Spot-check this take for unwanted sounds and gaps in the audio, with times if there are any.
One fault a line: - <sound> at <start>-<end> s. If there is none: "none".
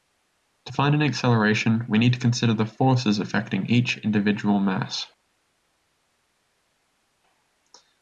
none